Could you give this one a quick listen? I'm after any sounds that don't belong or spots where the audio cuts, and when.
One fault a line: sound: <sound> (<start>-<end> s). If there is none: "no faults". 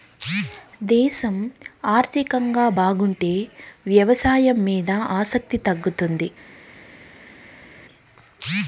no faults